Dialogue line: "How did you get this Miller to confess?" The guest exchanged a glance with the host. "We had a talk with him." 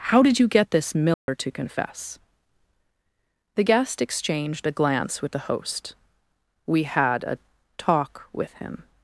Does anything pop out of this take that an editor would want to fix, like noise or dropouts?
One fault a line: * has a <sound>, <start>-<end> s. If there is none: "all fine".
* has a dropout, 1.1-1.3 s